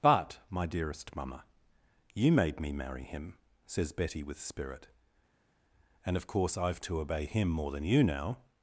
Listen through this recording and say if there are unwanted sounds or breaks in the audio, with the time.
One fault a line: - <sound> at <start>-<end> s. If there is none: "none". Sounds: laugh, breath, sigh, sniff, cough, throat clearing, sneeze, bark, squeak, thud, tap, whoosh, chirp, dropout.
none